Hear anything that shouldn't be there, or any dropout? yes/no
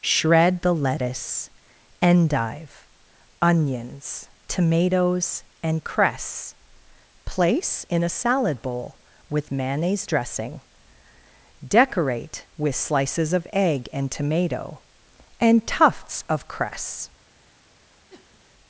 yes